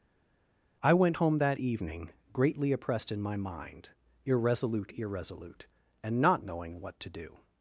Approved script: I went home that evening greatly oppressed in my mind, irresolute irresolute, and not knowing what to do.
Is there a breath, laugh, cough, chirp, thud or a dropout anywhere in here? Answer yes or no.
no